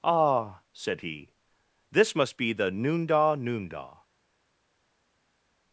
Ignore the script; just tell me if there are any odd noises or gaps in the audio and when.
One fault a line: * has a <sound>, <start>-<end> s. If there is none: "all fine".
all fine